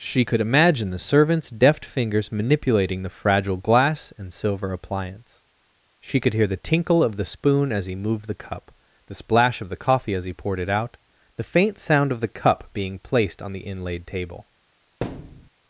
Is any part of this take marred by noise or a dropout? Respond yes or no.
yes